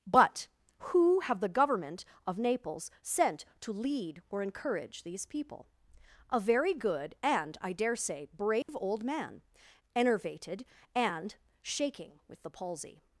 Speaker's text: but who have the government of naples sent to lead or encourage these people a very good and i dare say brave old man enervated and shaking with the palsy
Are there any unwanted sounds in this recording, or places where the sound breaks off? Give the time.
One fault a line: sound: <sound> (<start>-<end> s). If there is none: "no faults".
sound: dropout (8.6-8.7 s)